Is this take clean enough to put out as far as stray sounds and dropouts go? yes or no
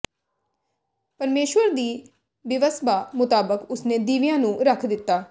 yes